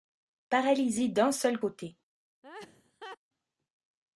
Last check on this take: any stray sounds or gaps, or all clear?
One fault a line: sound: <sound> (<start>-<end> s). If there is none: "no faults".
sound: laugh (2.4-3.2 s)